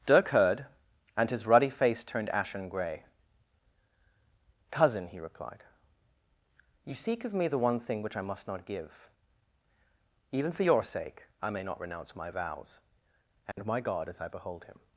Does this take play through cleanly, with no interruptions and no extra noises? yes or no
no